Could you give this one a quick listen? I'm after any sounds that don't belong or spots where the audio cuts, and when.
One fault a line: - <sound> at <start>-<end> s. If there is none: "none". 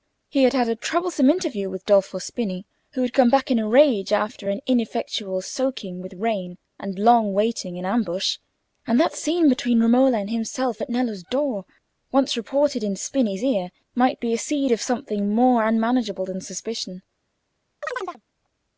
- chirp at 17.8-18.2 s